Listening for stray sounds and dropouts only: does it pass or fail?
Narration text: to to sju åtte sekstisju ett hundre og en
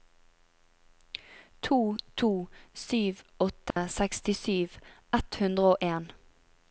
fail